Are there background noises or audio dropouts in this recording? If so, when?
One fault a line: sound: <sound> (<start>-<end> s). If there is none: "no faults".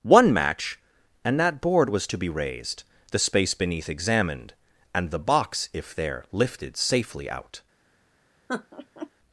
sound: laugh (8.5-9.1 s)